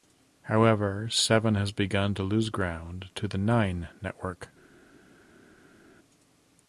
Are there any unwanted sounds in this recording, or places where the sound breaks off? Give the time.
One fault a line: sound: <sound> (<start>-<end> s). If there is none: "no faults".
no faults